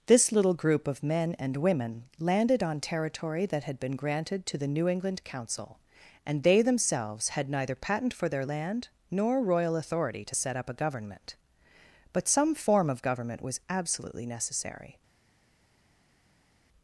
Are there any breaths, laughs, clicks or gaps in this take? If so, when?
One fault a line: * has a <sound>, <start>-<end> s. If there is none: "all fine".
all fine